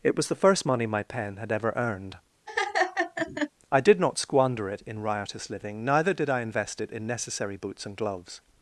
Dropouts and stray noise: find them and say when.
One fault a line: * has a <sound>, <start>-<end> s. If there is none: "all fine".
* has a laugh, 2.5-3.5 s